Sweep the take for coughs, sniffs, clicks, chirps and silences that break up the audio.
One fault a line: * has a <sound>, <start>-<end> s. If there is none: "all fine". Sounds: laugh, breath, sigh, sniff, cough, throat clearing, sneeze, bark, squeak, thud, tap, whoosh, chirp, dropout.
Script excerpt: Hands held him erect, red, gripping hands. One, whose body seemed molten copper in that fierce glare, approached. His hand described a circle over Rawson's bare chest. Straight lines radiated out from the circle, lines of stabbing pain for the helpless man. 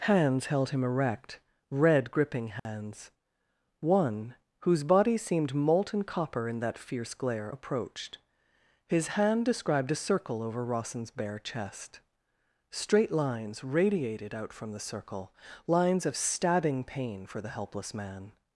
* has a dropout, 2.6-2.7 s